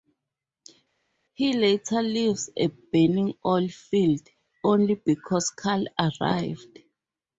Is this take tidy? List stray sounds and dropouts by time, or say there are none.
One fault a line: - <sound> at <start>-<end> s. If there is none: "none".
none